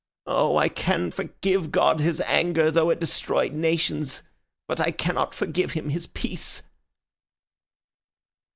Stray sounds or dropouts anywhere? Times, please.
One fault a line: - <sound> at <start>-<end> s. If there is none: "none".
none